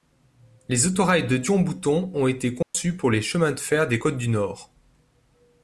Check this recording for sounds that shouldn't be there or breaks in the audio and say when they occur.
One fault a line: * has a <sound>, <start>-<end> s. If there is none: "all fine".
* has a dropout, 2.6-2.7 s